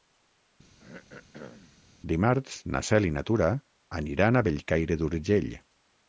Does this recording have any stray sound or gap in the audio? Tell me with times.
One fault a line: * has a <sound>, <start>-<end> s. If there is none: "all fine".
* has a throat clearing, 0.8-1.8 s